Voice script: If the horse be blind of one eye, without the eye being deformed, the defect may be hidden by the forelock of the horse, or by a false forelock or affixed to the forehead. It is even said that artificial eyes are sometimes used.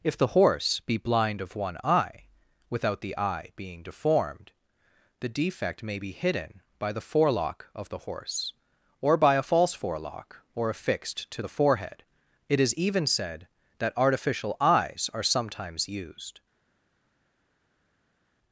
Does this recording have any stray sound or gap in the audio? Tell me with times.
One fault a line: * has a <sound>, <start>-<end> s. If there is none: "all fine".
all fine